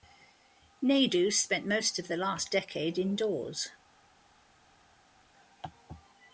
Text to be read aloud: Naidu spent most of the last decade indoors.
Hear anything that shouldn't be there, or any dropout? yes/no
no